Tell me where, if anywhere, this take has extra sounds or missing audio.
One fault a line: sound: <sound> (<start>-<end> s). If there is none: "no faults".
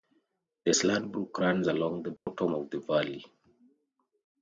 sound: dropout (2.2-2.3 s)